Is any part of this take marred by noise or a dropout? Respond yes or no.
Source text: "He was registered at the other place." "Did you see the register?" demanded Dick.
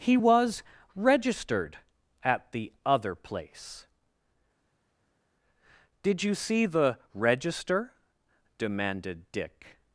no